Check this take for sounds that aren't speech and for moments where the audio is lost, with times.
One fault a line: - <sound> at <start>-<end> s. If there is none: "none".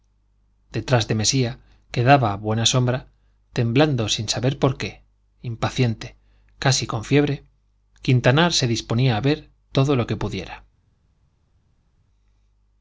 none